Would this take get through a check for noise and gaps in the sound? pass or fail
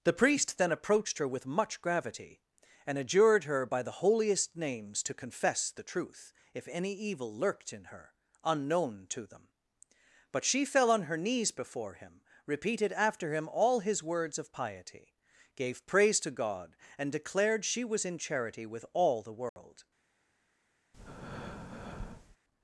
fail